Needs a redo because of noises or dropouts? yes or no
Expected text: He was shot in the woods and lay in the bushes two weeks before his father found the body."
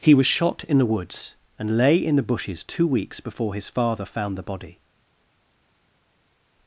no